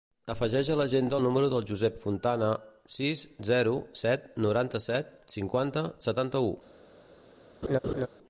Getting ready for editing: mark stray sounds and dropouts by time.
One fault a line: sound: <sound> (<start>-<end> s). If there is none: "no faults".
sound: laugh (7.6-8.1 s)